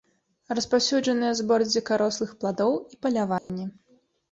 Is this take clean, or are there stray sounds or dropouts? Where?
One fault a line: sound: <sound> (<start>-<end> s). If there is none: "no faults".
sound: dropout (3.4-3.5 s)